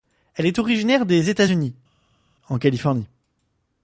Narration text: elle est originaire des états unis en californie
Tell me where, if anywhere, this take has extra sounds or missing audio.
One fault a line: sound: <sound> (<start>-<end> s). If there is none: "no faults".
no faults